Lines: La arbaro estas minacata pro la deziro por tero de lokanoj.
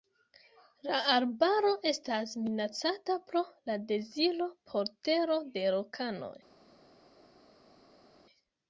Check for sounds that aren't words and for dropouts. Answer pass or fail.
pass